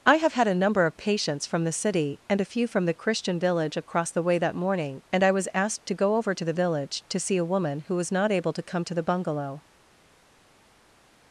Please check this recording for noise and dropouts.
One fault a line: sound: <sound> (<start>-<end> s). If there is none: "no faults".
no faults